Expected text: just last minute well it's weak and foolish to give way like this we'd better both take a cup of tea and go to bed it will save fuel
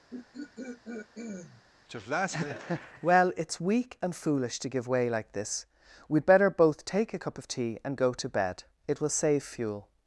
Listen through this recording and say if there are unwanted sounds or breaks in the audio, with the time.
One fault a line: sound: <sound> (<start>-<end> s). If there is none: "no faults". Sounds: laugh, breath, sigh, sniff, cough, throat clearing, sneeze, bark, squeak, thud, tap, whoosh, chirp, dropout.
sound: throat clearing (0.1-1.6 s)